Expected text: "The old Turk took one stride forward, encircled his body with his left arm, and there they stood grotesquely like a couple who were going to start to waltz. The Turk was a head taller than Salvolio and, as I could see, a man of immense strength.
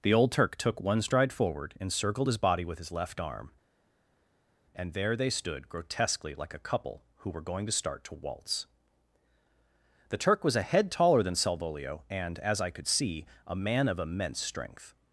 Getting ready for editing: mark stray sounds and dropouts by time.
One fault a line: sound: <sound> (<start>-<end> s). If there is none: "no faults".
no faults